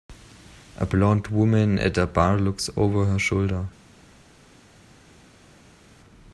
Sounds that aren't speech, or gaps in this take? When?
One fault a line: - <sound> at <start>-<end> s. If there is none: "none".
none